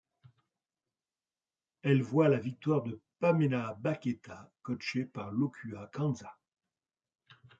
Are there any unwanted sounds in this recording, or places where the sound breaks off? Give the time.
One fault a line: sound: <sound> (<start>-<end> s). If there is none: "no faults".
no faults